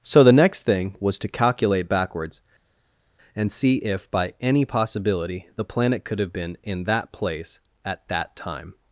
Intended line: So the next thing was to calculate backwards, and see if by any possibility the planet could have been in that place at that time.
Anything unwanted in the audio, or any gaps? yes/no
no